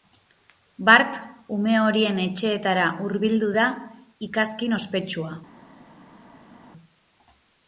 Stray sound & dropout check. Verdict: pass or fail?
pass